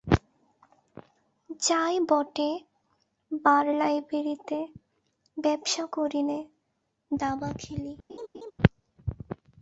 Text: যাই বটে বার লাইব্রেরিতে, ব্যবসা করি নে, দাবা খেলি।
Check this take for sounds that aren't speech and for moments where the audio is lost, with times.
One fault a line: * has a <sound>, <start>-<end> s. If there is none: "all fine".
* has a laugh, 8.1-8.5 s